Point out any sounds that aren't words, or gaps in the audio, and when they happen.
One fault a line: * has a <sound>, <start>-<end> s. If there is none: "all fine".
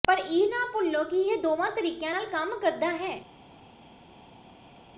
all fine